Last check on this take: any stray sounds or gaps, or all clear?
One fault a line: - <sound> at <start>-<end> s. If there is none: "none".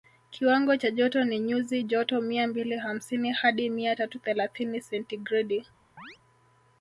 - chirp at 6.0-6.2 s